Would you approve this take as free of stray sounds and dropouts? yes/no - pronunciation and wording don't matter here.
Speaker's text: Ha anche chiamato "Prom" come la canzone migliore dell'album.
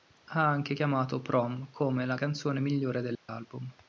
no